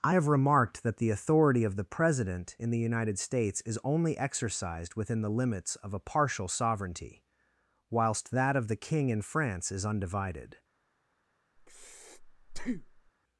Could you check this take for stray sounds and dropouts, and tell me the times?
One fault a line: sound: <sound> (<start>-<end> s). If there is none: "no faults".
sound: breath (11.6-13.1 s)